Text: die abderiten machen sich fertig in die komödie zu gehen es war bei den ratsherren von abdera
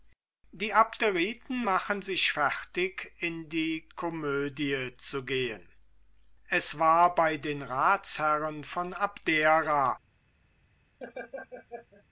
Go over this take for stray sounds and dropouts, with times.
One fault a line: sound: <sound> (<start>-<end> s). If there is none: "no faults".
sound: laugh (11.0-12.0 s)